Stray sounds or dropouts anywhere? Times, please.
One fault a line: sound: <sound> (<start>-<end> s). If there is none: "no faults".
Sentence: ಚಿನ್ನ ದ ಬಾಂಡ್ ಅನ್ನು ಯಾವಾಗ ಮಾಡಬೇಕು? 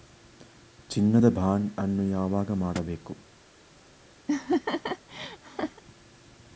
sound: laugh (4.3-5.8 s)